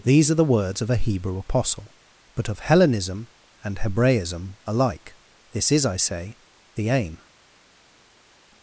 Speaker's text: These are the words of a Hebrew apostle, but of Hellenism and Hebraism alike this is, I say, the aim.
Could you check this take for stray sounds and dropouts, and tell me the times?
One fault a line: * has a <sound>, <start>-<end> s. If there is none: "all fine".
all fine